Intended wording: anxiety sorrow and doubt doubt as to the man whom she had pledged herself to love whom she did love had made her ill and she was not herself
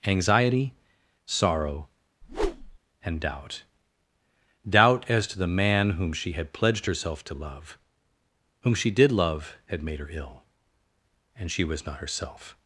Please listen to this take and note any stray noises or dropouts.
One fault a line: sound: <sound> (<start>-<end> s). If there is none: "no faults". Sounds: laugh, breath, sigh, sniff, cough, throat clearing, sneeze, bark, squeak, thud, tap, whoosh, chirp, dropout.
sound: whoosh (2.2-2.8 s)